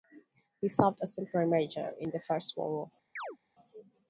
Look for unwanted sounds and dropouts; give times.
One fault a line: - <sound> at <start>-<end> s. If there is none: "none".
- chirp at 3.2-3.4 s